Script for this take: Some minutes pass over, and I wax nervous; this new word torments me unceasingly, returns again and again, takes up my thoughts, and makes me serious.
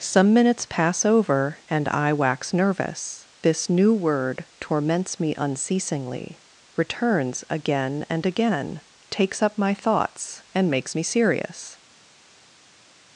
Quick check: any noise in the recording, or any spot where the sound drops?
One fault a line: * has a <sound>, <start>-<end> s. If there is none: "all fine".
all fine